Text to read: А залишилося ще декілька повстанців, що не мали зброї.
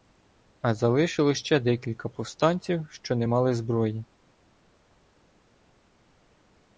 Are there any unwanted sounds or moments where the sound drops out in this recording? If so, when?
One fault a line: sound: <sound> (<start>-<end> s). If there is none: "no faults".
no faults